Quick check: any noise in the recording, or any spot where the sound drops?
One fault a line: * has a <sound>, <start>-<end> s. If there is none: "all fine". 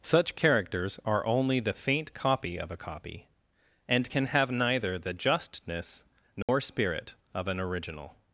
* has a dropout, 6.4-6.5 s